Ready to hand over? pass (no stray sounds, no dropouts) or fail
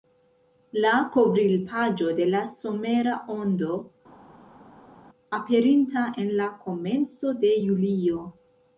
pass